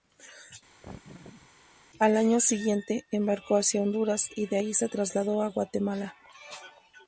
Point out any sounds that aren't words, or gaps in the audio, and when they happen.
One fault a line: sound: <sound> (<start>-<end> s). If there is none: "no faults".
sound: laugh (0.8-1.5 s)